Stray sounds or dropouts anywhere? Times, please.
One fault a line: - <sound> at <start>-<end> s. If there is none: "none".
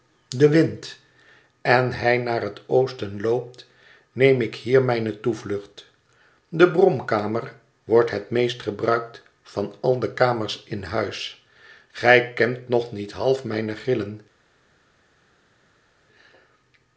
none